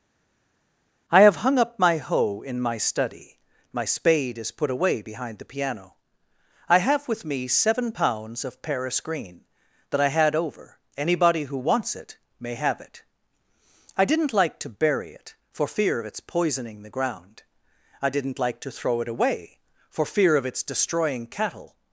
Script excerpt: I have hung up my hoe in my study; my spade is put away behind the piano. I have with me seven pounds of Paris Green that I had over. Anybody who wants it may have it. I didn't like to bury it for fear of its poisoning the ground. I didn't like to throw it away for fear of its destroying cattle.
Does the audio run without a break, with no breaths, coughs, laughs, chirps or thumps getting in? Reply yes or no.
yes